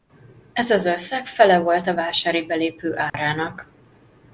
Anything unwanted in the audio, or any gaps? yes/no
yes